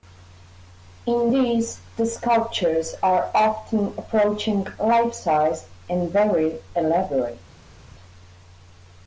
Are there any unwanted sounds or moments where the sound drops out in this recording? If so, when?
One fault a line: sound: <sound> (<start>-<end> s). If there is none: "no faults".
no faults